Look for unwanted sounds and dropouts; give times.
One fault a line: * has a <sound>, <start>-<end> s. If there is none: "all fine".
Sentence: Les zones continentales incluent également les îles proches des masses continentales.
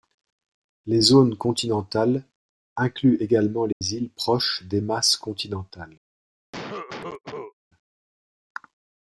* has a dropout, 3.7-3.8 s
* has a cough, 6.5-7.5 s